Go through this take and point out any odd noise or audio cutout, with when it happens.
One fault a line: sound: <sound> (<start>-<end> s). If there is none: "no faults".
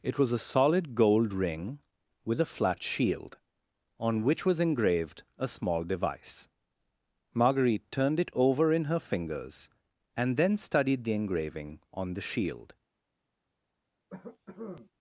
sound: cough (14.1-14.9 s)